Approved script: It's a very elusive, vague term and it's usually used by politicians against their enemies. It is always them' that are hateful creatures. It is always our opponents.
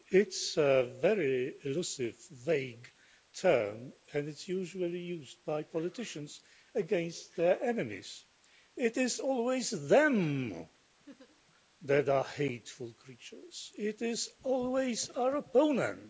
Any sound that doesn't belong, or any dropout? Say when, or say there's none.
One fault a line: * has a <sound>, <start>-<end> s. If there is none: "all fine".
* has a laugh, 11.1-11.4 s